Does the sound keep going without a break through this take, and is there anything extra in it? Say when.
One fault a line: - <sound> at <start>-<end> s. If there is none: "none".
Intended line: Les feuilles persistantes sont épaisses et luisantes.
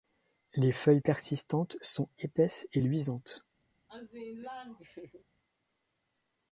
- laugh at 3.9-5.2 s